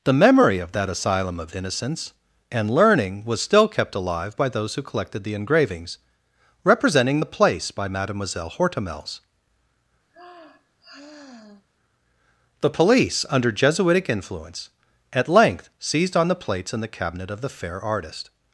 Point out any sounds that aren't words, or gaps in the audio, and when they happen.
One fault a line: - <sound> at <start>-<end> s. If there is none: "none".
- sigh at 10.1-11.7 s